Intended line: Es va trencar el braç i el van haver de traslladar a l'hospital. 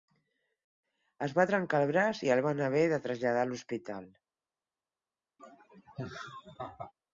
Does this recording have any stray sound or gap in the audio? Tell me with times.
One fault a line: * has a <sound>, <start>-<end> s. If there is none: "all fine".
* has a laugh, 5.4-6.9 s